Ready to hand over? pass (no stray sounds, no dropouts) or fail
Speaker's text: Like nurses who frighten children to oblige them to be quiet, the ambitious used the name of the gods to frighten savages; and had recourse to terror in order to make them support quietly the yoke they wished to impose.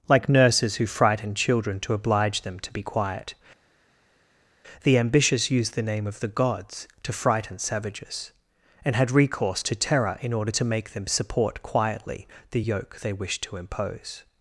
pass